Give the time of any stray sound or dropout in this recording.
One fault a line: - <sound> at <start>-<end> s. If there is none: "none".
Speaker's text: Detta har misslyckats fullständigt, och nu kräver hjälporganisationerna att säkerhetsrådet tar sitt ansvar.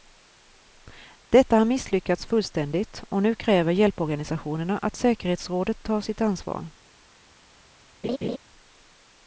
- laugh at 8.0-8.4 s